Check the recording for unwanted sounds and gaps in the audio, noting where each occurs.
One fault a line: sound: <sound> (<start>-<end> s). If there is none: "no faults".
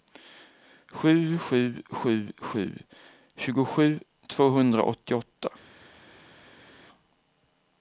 no faults